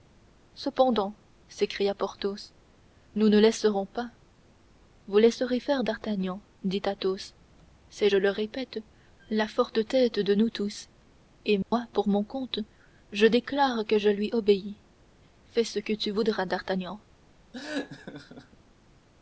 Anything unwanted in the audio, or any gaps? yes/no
yes